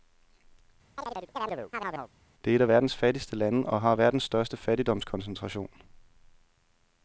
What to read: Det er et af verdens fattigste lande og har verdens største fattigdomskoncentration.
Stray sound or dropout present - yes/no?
yes